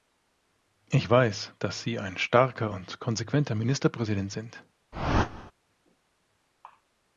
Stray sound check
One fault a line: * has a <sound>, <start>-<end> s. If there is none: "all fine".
* has a whoosh, 4.9-5.5 s